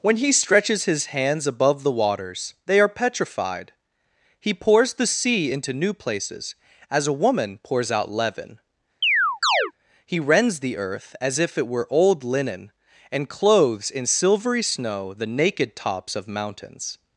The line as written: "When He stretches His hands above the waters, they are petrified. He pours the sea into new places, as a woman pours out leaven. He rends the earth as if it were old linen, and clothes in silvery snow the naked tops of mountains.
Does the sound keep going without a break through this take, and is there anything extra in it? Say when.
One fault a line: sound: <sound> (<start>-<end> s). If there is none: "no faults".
sound: chirp (9.0-9.7 s)